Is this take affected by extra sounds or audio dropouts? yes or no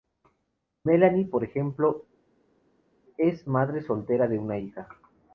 no